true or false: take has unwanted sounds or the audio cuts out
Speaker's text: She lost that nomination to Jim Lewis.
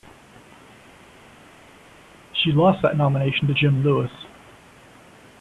false